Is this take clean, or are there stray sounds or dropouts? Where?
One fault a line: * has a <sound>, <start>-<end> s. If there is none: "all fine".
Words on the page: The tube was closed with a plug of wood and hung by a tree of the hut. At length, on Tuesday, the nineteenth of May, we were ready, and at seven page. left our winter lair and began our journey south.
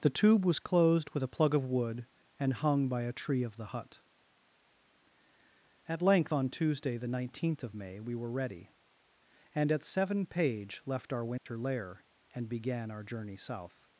* has a dropout, 11.4-11.5 s